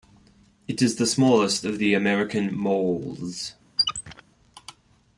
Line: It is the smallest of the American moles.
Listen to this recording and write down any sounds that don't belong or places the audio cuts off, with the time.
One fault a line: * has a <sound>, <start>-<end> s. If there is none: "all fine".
* has a squeak, 3.8-4.2 s